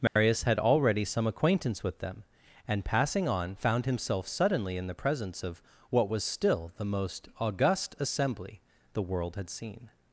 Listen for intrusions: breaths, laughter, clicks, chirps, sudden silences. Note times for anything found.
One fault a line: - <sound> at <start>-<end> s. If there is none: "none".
- dropout at 0.1-0.2 s